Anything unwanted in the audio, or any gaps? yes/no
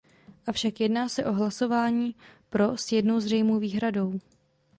no